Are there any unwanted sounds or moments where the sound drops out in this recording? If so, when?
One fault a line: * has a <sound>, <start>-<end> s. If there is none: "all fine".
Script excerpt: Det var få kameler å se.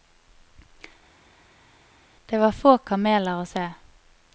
all fine